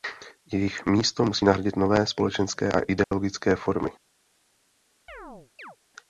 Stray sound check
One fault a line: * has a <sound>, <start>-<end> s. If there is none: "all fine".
* has a dropout, 3.0-3.1 s
* has a chirp, 5.1-5.8 s